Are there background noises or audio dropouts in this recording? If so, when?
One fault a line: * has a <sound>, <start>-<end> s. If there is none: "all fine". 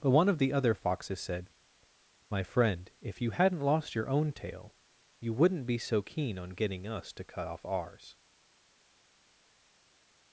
all fine